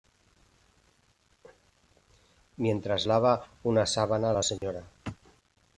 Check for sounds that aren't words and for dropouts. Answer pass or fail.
fail